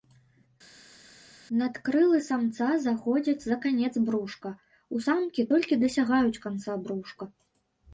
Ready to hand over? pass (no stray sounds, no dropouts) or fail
pass